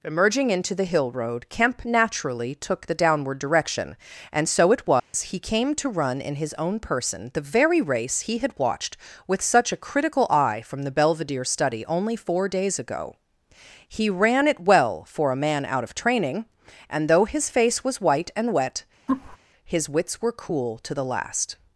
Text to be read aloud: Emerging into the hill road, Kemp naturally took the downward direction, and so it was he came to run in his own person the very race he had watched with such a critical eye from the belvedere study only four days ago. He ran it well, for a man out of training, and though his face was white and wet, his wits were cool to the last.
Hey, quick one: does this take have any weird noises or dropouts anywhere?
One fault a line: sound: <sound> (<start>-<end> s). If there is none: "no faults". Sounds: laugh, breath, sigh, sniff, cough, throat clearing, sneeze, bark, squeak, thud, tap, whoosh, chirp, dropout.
sound: dropout (5.0-5.1 s)
sound: laugh (19.1-19.4 s)